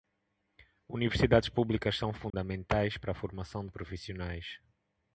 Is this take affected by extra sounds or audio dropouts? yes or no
yes